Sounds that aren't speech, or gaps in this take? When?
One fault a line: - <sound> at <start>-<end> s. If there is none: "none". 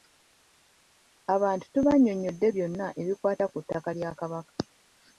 none